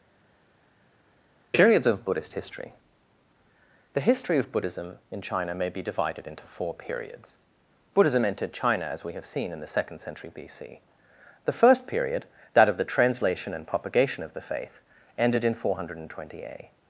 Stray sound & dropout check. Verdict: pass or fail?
pass